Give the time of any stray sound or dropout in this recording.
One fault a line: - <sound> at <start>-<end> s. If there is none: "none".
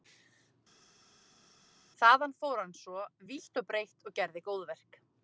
none